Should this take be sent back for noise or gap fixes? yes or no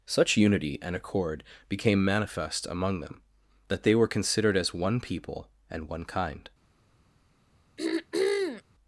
yes